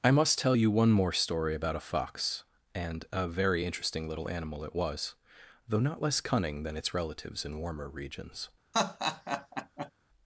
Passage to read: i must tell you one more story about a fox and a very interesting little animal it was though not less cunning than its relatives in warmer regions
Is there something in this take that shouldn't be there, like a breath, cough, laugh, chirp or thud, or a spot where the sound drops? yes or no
yes